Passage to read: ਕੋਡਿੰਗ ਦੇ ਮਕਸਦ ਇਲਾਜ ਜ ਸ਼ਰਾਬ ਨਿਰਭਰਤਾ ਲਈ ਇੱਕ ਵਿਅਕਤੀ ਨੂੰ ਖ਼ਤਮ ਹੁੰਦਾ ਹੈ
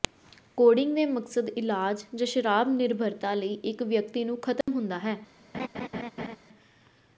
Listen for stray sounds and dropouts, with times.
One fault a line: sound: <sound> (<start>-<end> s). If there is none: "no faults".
sound: dropout (4.6-4.7 s)
sound: laugh (5.5-6.4 s)